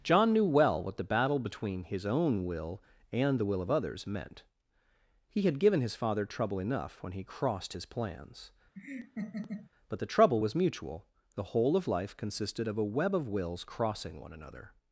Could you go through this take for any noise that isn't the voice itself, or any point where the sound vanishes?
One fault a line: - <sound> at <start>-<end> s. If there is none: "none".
- laugh at 8.8-9.7 s